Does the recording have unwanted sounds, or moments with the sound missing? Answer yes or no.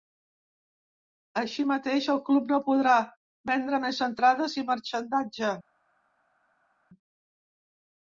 no